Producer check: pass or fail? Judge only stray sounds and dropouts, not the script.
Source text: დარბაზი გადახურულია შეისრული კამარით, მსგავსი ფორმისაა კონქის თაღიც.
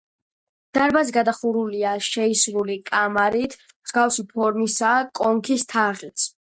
pass